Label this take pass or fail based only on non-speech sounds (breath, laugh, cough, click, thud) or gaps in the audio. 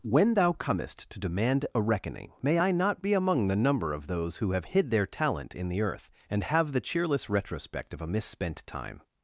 pass